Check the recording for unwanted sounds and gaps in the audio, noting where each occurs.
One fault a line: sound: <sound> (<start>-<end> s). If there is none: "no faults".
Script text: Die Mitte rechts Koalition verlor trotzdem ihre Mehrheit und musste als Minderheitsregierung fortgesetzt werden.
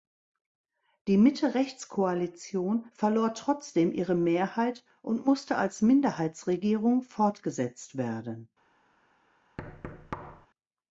sound: thud (9.6-10.5 s)